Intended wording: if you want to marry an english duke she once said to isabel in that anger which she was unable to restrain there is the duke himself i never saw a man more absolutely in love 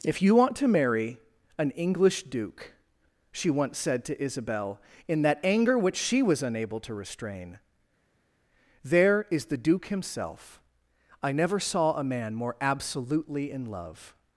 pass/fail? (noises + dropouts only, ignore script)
pass